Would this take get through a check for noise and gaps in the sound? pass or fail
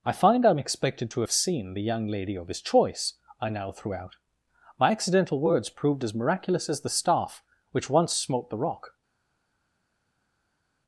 pass